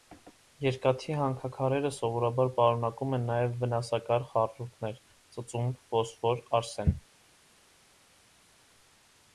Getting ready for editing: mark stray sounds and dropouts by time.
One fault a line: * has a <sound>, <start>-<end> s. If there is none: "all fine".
all fine